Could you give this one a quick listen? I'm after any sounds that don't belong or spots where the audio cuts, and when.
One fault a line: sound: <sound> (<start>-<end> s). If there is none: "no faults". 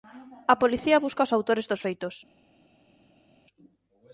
no faults